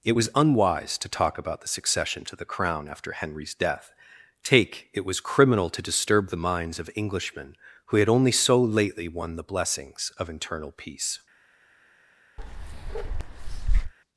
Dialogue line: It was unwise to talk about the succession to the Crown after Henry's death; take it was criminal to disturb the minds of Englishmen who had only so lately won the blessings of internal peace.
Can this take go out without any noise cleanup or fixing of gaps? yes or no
no